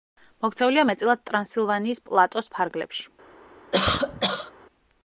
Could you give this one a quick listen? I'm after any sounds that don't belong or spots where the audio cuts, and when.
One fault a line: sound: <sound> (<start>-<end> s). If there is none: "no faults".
sound: cough (3.7-4.5 s)